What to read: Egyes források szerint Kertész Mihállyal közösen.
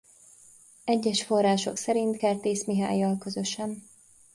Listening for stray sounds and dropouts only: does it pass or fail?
pass